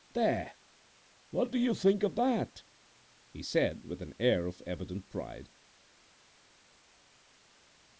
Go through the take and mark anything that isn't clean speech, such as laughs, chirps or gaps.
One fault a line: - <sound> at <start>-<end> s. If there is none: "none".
none